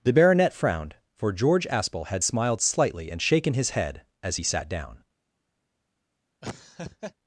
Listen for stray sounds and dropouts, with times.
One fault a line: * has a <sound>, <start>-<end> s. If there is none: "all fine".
* has a laugh, 6.4-7.1 s